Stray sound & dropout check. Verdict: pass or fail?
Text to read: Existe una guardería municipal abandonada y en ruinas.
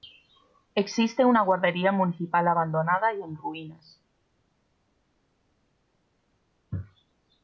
pass